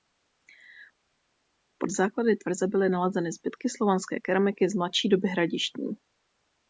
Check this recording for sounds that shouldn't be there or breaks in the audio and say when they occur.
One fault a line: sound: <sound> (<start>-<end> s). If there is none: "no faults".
no faults